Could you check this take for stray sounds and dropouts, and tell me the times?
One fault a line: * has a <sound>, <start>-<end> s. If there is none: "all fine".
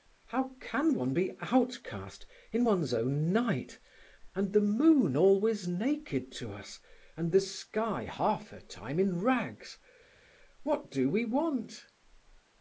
all fine